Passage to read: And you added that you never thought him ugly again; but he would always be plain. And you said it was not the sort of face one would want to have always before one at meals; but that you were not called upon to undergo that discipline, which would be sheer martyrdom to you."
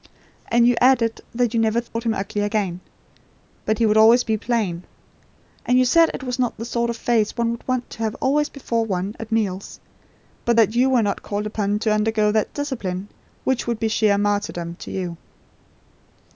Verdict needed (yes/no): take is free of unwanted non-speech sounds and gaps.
no